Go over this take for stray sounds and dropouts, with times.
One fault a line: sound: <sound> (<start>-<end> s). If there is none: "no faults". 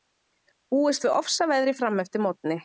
no faults